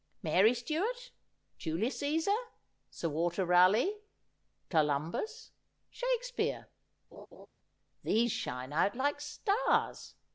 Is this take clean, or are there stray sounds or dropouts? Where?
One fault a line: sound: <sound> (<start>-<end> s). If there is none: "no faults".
sound: laugh (7.1-7.5 s)